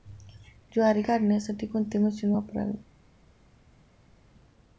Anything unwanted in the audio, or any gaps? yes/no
no